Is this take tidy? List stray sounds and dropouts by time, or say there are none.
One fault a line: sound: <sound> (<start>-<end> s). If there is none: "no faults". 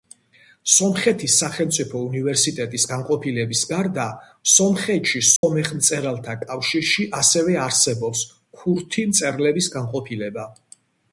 sound: dropout (5.4-5.4 s)